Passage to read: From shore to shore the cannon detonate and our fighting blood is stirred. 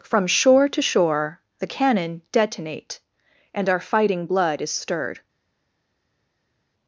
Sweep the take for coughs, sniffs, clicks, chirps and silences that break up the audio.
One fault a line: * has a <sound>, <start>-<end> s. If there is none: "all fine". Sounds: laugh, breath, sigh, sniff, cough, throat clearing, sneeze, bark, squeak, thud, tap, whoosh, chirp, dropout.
all fine